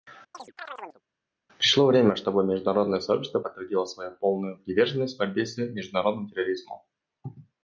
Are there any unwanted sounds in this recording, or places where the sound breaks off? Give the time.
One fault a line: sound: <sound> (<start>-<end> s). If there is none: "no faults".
sound: chirp (0.3-1.0 s)